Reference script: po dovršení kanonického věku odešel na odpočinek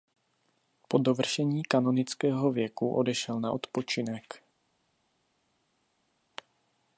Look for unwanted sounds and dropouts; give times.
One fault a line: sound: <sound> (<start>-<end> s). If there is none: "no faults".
no faults